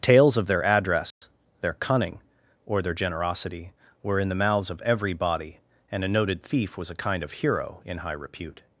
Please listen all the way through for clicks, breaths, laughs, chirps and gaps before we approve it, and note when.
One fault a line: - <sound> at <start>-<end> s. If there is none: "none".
- dropout at 1.1-1.2 s